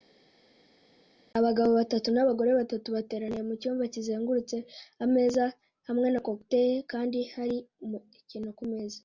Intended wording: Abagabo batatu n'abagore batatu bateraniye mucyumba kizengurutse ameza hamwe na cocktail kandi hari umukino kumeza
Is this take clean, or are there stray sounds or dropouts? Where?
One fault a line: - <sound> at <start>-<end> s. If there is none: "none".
none